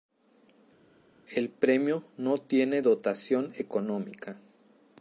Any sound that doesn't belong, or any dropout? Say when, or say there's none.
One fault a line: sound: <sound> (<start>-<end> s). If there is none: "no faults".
no faults